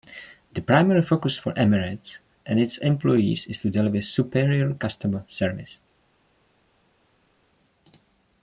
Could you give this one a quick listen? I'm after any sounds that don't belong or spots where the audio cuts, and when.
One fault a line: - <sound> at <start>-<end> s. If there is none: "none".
none